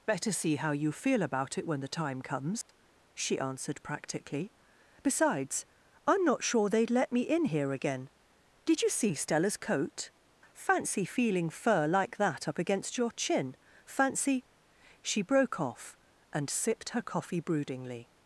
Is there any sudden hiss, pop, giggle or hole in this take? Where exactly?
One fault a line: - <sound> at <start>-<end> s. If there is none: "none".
- dropout at 2.6-2.7 s